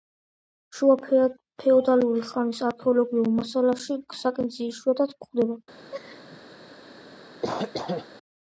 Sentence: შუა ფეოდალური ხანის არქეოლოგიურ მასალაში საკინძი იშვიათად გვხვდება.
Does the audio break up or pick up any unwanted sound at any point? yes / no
yes